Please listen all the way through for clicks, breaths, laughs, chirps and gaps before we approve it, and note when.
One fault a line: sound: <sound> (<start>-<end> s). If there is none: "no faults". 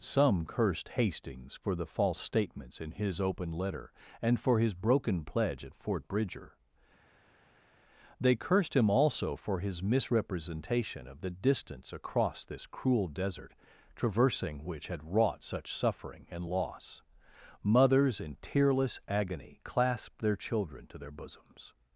no faults